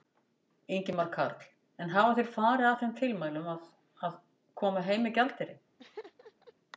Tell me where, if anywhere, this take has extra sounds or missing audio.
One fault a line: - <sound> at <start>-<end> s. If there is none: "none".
- laugh at 5.8-6.5 s